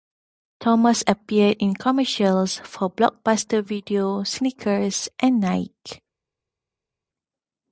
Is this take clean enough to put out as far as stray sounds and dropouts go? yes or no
yes